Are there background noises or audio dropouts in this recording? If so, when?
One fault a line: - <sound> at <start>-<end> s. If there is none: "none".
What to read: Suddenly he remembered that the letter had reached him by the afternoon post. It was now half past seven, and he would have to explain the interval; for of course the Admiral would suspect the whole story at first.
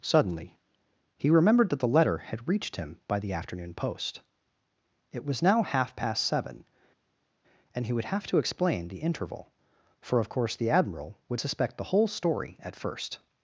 none